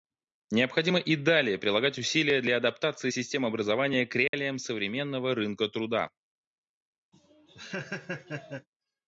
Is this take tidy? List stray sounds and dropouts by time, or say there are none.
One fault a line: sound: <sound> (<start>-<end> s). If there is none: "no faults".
sound: dropout (4.3-4.3 s)
sound: laugh (7.1-8.7 s)